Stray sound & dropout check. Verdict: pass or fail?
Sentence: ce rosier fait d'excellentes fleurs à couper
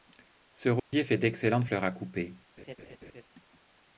fail